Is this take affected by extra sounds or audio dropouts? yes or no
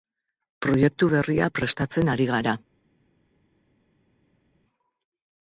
no